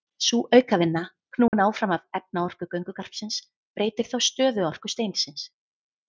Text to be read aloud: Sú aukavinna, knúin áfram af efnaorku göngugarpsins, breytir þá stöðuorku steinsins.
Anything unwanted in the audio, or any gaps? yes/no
yes